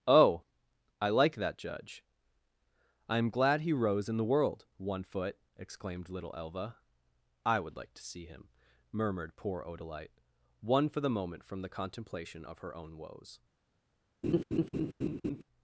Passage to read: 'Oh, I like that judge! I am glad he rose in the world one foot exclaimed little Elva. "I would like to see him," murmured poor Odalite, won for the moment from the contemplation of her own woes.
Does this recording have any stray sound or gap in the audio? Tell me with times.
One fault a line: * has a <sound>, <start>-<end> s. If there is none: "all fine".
* has a laugh, 14.2-15.4 s